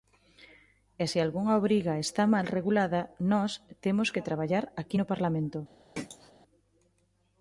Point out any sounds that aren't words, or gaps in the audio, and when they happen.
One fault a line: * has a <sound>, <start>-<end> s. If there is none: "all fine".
* has a throat clearing, 6.0-6.3 s